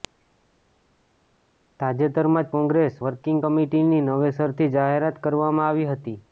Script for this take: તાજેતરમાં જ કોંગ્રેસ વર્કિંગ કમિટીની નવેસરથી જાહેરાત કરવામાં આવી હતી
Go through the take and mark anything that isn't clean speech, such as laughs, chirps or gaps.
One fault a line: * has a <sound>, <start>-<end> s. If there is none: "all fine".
all fine